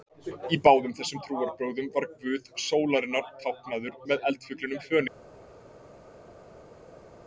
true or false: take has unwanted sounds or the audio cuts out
false